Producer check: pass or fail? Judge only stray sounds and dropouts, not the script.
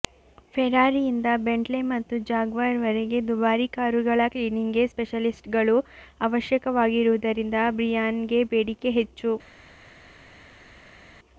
pass